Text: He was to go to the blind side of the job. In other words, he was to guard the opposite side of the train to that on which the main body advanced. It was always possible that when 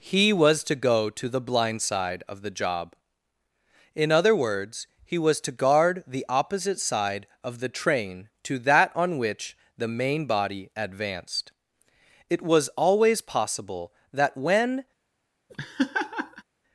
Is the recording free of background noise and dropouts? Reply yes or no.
no